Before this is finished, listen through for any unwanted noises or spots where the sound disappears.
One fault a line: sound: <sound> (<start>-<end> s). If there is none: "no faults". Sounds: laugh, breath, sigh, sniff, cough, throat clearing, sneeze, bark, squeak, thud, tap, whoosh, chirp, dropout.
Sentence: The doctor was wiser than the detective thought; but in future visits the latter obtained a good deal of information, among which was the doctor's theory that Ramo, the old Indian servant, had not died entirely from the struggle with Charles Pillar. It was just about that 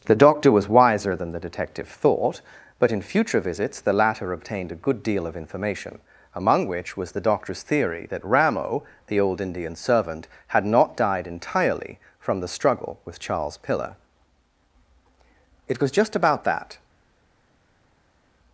no faults